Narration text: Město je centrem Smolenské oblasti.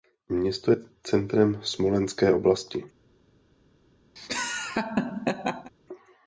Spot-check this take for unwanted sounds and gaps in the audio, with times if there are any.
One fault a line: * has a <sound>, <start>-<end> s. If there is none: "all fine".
* has a laugh, 4.2-5.7 s